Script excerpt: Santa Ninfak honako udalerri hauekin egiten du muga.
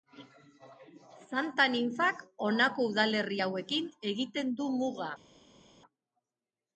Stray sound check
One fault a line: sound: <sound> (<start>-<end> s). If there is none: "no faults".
no faults